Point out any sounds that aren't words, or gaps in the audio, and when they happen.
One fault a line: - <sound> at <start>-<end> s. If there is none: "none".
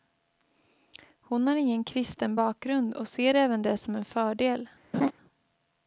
- laugh at 4.9-5.1 s